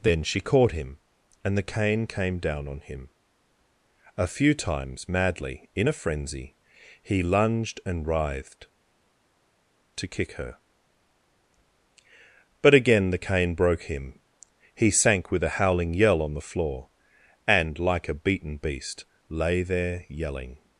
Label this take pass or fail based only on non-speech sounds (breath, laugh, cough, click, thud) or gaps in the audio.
pass